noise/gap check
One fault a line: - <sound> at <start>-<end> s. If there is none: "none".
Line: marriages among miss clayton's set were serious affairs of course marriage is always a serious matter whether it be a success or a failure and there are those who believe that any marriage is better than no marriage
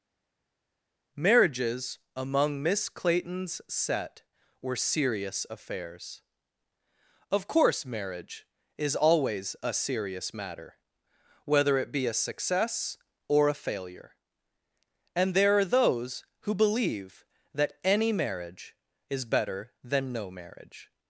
none